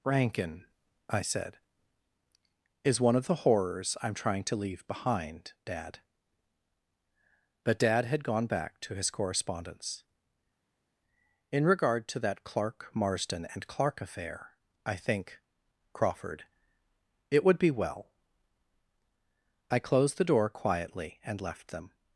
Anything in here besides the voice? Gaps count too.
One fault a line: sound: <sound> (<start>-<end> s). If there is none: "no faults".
no faults